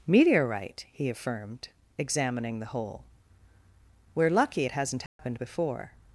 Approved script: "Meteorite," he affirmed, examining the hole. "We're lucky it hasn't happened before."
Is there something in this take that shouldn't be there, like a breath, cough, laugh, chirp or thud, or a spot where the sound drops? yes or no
yes